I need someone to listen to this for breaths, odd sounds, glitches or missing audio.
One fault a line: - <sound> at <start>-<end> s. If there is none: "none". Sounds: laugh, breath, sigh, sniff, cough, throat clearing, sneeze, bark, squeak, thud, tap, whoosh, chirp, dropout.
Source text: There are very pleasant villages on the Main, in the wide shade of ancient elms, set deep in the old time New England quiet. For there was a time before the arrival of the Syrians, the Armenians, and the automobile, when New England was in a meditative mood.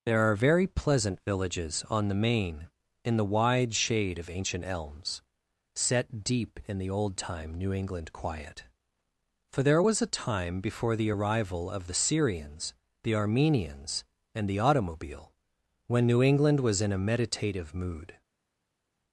none